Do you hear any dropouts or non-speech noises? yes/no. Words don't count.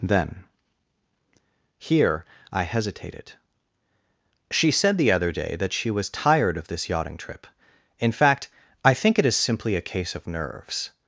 no